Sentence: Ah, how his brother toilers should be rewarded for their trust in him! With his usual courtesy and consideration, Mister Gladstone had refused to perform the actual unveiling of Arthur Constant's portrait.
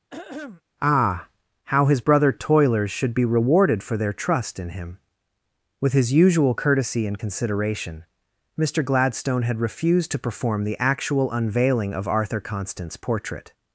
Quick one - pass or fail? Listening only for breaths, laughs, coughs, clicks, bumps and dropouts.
fail